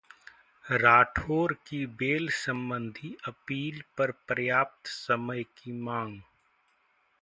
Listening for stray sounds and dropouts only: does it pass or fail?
pass